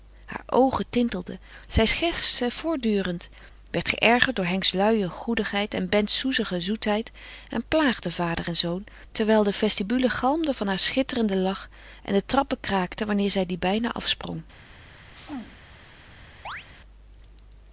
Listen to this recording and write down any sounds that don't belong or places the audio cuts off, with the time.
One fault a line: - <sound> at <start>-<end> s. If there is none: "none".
- sneeze at 15.1-15.6 s
- chirp at 16.4-16.6 s